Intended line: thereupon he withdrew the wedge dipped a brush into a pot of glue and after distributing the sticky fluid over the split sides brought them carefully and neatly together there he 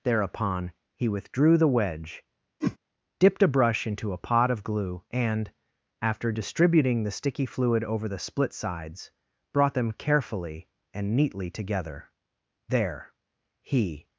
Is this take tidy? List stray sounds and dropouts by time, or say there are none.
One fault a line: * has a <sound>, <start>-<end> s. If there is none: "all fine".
* has a whoosh, 2.6-2.8 s